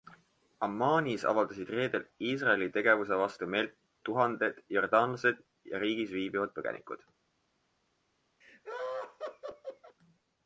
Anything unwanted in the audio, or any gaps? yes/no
yes